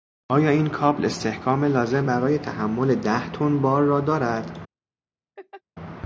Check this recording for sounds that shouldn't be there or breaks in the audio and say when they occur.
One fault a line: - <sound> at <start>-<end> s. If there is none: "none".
- laugh at 5.4-5.6 s